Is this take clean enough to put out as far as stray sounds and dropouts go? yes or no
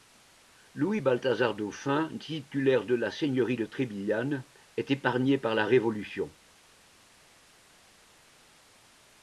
yes